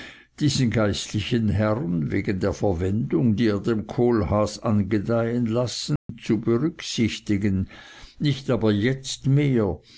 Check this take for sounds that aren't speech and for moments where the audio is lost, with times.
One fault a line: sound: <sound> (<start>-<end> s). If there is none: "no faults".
sound: dropout (6.0-6.1 s)